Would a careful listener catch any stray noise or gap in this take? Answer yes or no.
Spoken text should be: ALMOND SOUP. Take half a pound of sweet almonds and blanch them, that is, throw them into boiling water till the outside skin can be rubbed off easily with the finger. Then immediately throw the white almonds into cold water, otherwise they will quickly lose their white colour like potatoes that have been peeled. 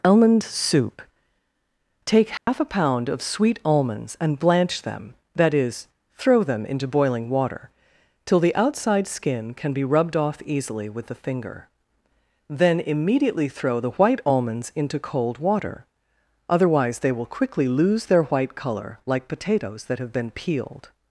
yes